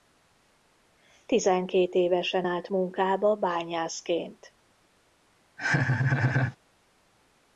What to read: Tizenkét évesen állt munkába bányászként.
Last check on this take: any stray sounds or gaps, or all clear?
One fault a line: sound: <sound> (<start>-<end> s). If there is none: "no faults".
sound: laugh (5.6-6.6 s)